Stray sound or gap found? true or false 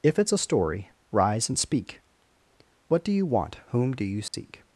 true